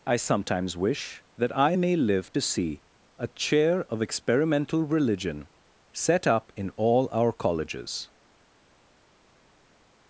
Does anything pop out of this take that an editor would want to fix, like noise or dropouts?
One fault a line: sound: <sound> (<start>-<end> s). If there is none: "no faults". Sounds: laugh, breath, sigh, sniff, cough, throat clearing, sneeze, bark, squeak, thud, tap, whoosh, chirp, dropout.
no faults